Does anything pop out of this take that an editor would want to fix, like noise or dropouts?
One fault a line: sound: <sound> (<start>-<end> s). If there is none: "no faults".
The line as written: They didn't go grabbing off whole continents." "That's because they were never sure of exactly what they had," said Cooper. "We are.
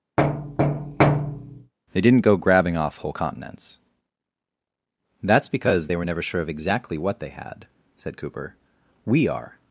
sound: thud (0.2-1.7 s)